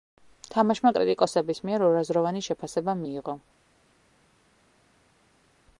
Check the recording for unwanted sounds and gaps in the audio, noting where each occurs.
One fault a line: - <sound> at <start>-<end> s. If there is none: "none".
none